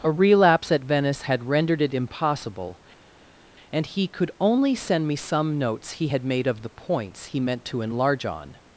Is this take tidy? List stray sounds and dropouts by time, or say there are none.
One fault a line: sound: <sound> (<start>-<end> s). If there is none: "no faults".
no faults